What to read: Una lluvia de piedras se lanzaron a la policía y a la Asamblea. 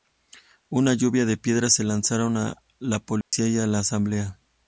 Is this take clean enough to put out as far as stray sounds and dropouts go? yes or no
no